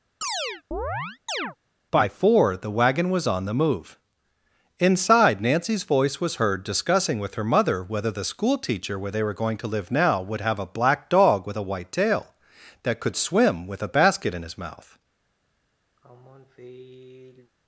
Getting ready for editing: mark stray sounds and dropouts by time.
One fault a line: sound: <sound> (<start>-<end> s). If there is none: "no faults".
sound: chirp (0.2-1.6 s)
sound: sigh (16.0-17.5 s)